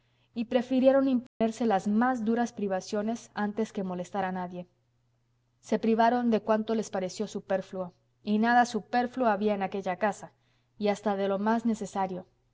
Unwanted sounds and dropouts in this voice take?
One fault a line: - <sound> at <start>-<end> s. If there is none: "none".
- dropout at 1.3-1.4 s